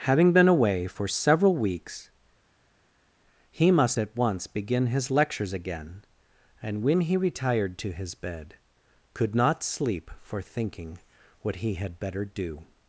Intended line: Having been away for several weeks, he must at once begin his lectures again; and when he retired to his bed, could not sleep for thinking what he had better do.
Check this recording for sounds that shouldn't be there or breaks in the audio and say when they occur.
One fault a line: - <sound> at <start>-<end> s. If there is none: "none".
none